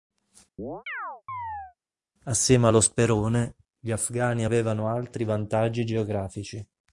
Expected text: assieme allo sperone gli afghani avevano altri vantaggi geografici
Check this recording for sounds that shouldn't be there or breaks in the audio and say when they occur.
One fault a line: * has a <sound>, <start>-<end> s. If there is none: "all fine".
* has a chirp, 0.6-1.8 s